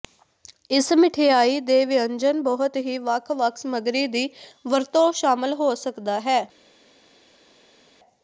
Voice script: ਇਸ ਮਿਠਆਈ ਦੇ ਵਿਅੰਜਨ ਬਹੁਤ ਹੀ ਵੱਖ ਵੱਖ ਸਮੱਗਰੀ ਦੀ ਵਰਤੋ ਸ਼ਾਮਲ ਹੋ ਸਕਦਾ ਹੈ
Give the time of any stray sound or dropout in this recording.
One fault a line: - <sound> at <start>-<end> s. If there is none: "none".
none